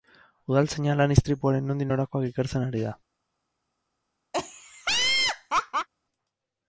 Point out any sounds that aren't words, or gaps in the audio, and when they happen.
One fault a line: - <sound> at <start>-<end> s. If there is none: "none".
- laugh at 4.3-5.9 s